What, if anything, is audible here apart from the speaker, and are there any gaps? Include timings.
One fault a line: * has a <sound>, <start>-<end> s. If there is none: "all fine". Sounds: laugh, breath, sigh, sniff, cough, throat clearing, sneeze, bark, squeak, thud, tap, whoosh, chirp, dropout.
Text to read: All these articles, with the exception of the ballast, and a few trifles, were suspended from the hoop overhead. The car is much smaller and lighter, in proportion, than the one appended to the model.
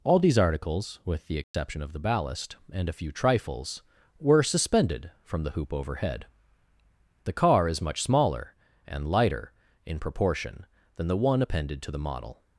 * has a dropout, 1.4-1.5 s